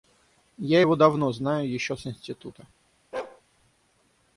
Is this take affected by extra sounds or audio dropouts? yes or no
yes